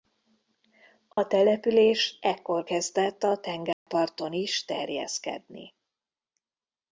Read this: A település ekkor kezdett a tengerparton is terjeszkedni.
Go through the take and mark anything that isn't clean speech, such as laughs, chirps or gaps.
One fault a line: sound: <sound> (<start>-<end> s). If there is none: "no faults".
sound: dropout (1.1-1.2 s)
sound: dropout (3.7-3.9 s)